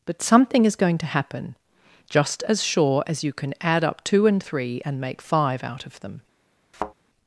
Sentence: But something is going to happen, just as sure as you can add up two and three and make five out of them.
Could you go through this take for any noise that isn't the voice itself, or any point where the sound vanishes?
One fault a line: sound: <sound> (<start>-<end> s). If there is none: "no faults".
sound: thud (6.7-6.9 s)